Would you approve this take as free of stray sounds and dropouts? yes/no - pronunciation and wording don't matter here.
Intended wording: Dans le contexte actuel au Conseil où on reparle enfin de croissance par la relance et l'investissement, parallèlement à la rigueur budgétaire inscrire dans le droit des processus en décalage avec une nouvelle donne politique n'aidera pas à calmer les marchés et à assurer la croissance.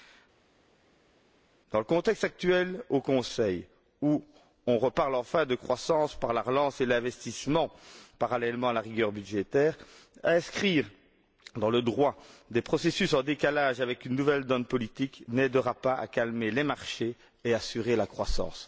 yes